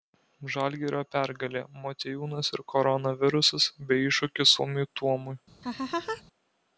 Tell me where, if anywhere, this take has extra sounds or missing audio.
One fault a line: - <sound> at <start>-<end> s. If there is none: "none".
- laugh at 5.6-6.2 s